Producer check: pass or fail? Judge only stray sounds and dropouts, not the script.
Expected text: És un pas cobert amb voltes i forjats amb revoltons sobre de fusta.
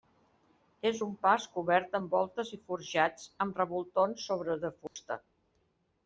fail